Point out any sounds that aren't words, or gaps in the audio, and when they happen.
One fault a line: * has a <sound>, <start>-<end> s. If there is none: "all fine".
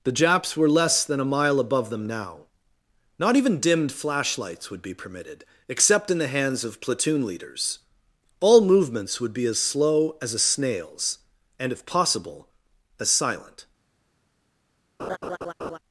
* has a laugh, 15.0-15.8 s